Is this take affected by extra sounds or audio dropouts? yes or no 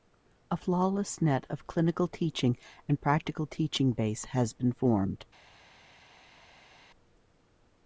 no